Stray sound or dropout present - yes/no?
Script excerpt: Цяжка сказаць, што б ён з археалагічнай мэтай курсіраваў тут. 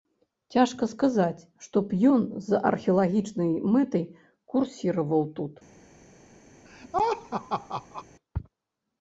yes